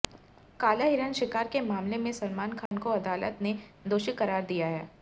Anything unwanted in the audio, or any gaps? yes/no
yes